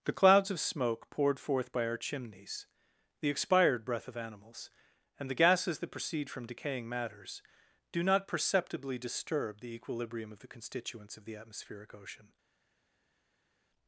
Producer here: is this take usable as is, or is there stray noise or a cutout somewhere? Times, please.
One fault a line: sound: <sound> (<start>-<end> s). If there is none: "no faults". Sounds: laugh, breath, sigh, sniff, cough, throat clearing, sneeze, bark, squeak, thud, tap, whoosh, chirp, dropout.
no faults